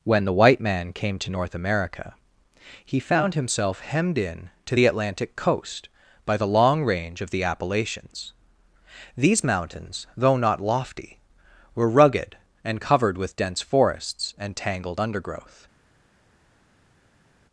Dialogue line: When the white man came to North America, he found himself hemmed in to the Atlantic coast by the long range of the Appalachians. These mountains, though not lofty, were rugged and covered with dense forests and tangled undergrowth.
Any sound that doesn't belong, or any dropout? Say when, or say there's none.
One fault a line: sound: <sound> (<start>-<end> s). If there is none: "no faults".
no faults